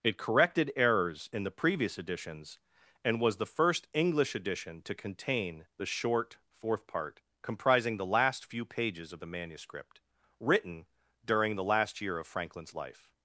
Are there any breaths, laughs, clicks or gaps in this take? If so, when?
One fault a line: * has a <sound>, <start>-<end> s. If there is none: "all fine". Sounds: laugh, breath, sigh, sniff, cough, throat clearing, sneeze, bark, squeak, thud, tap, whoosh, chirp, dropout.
all fine